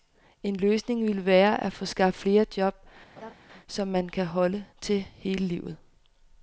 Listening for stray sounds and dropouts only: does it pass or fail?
fail